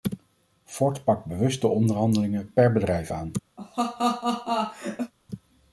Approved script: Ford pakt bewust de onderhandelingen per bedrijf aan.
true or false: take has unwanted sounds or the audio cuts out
true